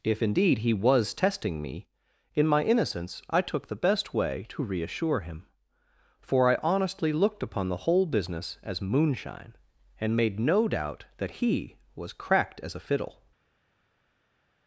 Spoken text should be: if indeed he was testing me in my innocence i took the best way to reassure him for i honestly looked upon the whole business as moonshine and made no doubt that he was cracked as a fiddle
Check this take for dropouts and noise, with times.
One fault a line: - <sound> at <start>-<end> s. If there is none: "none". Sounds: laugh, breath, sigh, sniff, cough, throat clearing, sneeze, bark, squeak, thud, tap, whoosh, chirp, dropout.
none